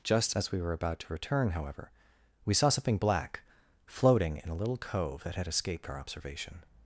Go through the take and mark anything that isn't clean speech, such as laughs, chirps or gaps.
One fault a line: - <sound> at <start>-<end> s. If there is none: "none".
none